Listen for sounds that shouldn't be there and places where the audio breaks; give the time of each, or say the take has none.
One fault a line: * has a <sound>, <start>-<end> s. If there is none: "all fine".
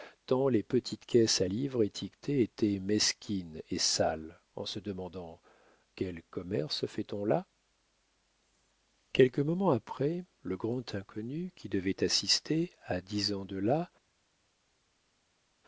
all fine